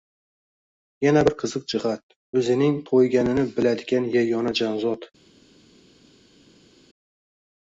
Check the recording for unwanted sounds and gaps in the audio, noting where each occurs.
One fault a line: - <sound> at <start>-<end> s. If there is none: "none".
none